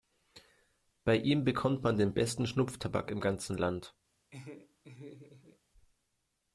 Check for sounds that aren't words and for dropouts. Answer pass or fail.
fail